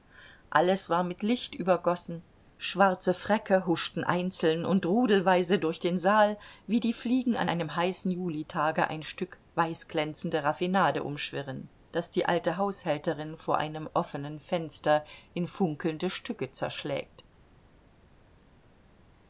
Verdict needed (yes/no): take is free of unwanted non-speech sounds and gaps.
yes